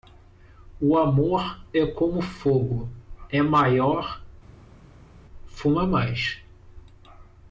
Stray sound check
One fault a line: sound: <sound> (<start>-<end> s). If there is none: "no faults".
no faults